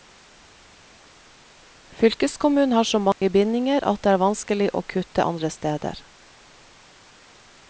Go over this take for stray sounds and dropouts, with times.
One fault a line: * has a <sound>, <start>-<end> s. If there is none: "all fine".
* has a dropout, 3.1-3.2 s